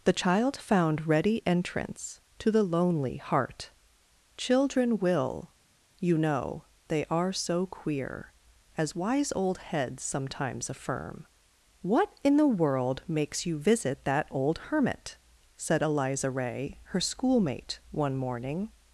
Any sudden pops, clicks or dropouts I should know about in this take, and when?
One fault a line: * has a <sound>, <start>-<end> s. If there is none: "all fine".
all fine